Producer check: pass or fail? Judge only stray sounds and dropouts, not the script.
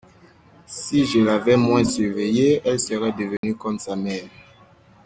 fail